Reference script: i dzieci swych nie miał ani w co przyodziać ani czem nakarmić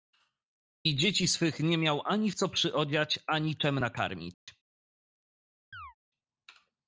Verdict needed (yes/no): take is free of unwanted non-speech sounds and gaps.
no